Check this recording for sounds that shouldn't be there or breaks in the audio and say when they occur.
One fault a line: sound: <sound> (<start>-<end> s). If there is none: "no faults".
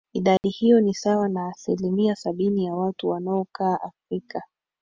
sound: dropout (0.4-0.4 s)